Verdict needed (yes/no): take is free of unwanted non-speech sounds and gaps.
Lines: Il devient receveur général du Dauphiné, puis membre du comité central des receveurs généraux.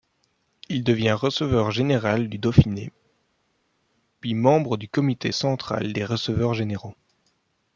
yes